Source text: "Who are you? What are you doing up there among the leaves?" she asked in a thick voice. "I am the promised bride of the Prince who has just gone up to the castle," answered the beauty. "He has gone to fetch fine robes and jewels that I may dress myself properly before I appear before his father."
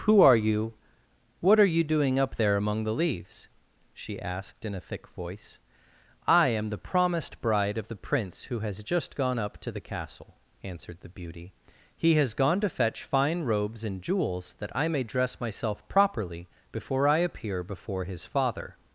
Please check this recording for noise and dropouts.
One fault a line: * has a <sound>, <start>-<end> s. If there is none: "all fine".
all fine